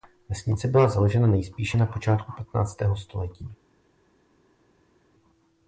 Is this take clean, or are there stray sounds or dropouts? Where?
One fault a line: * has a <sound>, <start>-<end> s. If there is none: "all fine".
all fine